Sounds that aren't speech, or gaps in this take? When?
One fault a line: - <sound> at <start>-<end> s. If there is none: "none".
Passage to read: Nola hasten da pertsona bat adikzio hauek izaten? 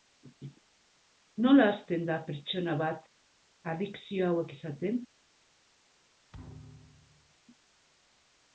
- thud at 6.3-7.3 s